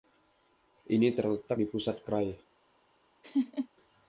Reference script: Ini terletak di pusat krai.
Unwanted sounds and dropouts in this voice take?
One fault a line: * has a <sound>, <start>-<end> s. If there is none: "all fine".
* has a laugh, 3.2-3.7 s